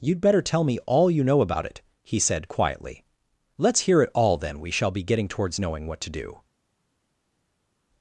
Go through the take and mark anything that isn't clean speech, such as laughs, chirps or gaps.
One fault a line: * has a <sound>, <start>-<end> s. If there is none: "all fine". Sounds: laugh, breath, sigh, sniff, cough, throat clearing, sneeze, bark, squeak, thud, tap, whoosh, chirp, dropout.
all fine